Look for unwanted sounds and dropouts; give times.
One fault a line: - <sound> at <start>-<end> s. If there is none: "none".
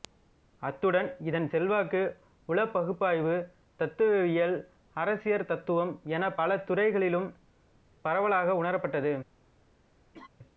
- laugh at 10.1-10.3 s